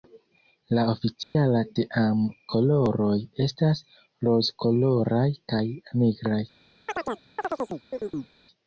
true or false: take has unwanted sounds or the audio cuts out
true